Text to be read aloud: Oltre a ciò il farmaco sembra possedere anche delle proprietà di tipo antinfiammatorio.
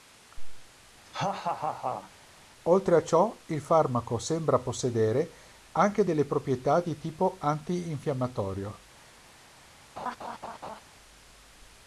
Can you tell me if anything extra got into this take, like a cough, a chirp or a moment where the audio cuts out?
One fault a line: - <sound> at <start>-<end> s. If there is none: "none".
- laugh at 1.1-2.1 s
- laugh at 10.0-10.8 s